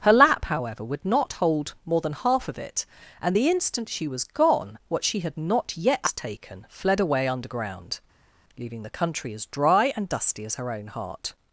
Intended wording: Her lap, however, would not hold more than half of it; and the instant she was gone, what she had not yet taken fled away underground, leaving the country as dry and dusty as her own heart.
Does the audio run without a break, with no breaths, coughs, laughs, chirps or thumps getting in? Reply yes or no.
yes